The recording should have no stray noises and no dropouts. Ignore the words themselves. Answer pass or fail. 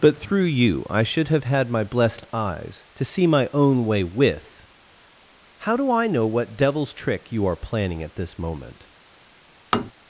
fail